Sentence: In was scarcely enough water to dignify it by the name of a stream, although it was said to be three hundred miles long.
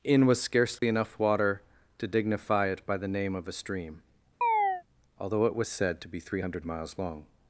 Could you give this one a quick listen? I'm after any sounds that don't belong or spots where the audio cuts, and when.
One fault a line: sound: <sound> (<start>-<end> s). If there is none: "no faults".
sound: dropout (0.8-0.8 s)
sound: chirp (4.4-4.8 s)